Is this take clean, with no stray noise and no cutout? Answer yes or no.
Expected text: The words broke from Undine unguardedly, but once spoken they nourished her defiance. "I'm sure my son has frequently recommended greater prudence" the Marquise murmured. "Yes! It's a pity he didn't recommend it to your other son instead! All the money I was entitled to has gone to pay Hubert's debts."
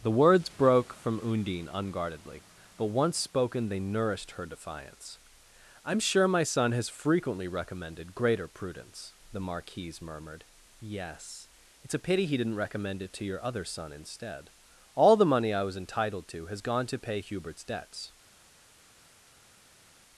yes